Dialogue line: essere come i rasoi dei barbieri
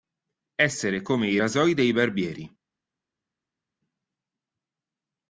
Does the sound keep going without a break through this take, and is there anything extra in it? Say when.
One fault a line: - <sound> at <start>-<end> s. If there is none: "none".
none